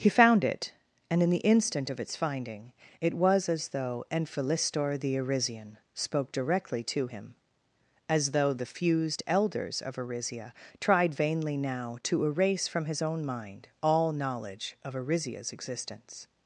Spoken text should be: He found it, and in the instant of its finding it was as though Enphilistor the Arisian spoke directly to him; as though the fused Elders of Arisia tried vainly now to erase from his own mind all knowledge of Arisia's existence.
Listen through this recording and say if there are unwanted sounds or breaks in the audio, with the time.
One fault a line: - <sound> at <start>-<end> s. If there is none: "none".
none